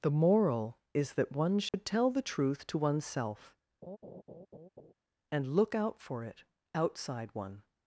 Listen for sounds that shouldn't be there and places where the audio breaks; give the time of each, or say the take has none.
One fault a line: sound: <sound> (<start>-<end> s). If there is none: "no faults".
sound: dropout (1.7-1.7 s)
sound: laugh (3.8-4.9 s)